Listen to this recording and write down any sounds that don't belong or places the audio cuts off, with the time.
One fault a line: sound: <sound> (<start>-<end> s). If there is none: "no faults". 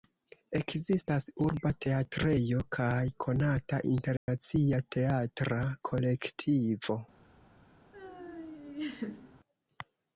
sound: dropout (4.2-4.3 s)
sound: laugh (7.9-9.4 s)